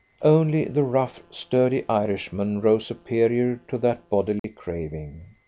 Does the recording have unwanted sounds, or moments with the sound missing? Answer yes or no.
yes